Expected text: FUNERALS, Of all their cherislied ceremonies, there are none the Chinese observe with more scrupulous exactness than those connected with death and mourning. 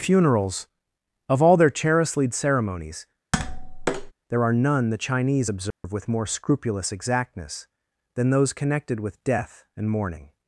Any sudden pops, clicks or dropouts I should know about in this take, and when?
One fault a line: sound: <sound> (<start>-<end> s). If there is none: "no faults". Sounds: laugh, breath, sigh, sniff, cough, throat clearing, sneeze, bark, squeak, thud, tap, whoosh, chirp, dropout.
sound: tap (3.3-4.1 s)
sound: dropout (5.7-5.8 s)